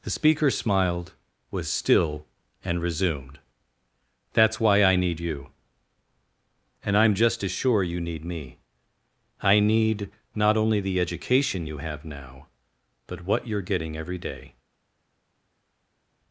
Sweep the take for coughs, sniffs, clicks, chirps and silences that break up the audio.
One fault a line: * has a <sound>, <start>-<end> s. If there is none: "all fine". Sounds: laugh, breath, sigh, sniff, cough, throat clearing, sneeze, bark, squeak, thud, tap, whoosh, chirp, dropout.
all fine